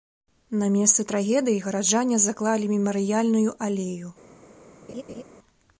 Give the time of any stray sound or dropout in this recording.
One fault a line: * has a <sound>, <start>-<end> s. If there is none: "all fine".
* has a laugh, 4.9-5.2 s